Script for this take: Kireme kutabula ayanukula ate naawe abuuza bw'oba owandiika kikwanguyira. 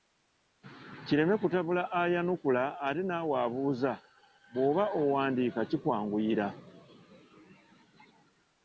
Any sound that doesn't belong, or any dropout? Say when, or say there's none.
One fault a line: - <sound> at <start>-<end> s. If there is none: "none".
none